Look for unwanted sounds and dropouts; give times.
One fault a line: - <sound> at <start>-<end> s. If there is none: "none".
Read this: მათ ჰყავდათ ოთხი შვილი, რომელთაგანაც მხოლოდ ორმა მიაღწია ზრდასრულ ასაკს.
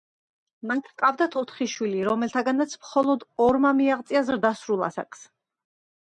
none